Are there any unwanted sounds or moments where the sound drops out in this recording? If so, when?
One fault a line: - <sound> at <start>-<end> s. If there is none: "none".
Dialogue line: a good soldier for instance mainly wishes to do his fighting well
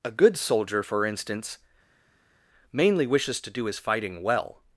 none